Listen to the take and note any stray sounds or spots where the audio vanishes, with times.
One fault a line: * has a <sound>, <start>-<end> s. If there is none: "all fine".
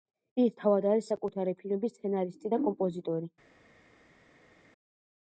all fine